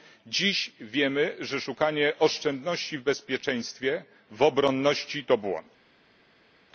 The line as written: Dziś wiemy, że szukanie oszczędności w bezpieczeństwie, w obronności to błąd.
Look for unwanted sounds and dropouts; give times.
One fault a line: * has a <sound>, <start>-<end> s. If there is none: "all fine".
all fine